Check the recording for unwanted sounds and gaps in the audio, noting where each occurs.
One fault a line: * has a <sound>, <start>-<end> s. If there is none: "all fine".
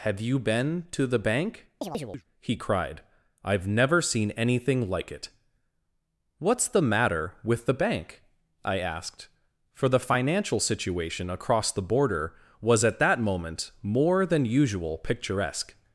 * has a chirp, 1.8-2.2 s